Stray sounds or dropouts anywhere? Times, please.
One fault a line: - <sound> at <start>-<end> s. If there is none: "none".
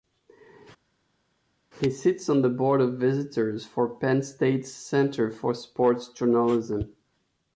none